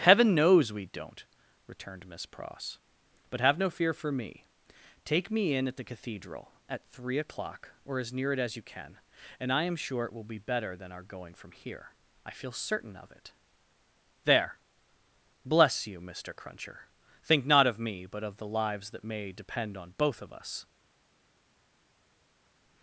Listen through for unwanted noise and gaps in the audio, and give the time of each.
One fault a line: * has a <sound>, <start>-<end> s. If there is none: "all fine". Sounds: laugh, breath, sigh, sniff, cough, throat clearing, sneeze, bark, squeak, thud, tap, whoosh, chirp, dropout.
all fine